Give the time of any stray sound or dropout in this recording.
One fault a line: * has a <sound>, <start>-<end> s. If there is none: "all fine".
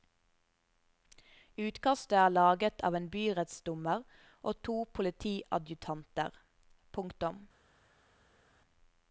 all fine